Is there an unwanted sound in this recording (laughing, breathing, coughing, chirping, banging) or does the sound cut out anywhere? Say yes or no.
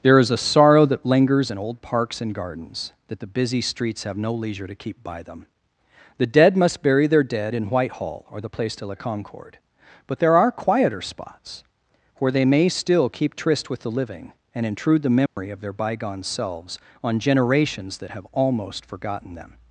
yes